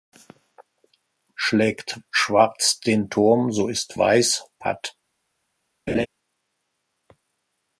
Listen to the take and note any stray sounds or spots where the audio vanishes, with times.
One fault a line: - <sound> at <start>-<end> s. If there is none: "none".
- laugh at 5.9-6.1 s